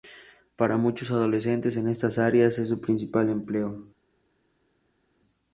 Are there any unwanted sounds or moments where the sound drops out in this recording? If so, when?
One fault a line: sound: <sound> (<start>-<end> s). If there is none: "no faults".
no faults